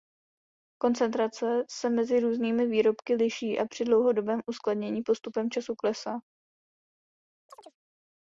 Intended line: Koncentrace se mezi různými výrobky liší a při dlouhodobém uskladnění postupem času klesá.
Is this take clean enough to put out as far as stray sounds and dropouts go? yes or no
no